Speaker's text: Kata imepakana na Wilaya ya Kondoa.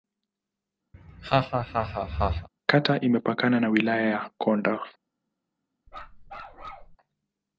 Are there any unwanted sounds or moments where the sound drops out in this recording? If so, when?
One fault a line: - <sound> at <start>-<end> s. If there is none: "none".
- laugh at 0.9-2.5 s
- bark at 5.9-7.0 s